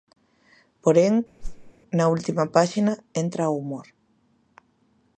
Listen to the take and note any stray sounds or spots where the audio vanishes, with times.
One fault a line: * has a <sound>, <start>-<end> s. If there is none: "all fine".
* has a whoosh, 1.4-1.7 s